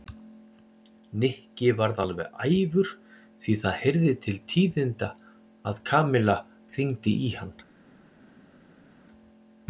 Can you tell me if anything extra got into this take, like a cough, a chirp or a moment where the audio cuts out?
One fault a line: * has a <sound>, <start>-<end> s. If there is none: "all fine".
all fine